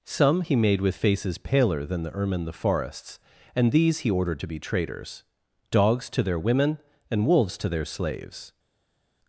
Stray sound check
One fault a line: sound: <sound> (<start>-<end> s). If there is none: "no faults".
no faults